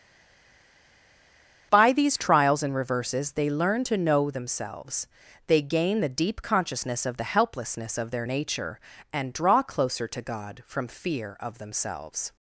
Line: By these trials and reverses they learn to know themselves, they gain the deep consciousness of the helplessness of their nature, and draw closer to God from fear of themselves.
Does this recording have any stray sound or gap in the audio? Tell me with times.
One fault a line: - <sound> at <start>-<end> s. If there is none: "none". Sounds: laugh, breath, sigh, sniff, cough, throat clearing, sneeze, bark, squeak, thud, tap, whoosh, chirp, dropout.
none